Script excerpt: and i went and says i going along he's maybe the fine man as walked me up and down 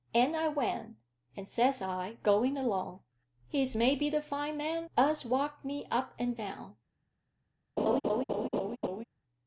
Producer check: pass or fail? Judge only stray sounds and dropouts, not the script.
fail